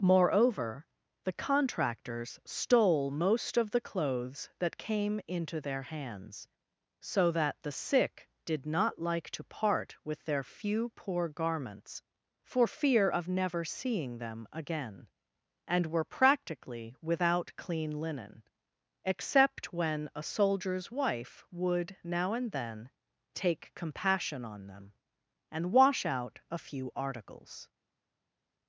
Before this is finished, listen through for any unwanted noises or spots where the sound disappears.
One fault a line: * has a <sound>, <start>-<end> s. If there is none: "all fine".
all fine